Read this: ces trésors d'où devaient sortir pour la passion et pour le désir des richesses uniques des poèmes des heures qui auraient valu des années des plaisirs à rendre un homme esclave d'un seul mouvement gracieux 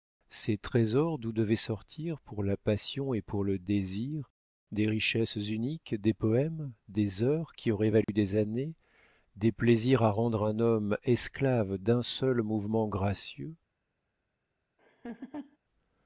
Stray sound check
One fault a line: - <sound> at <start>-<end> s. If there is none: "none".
- dropout at 8.0-8.1 s
- laugh at 14.8-15.6 s